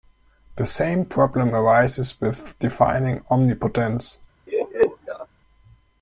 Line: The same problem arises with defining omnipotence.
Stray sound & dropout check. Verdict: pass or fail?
fail